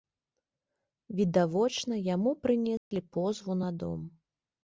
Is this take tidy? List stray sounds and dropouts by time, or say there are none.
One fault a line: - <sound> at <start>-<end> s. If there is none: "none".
- dropout at 2.8-2.9 s